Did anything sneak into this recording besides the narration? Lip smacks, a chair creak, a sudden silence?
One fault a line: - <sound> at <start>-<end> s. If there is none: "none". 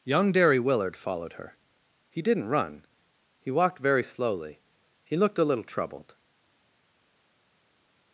none